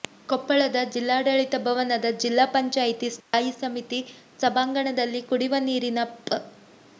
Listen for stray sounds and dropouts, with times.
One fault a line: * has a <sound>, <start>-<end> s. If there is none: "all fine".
* has a dropout, 3.2-3.3 s